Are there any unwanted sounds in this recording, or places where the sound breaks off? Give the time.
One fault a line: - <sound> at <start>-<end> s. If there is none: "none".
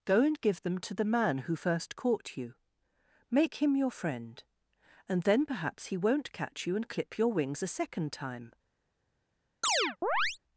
- chirp at 9.6-10.4 s